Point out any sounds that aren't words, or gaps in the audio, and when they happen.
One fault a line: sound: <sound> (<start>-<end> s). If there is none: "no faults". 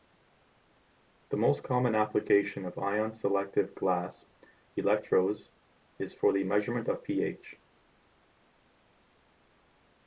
no faults